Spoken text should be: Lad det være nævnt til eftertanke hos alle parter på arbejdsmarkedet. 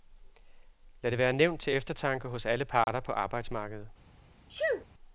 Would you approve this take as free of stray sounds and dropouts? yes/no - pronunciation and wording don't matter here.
no